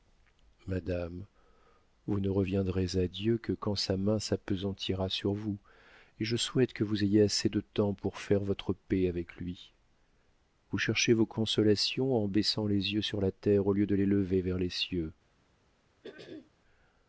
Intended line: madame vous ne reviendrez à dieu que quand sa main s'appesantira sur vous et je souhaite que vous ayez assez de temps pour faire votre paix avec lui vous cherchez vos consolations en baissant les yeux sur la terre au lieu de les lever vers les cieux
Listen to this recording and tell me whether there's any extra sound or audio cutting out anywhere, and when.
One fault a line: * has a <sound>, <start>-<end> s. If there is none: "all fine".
* has a throat clearing, 16.0-16.5 s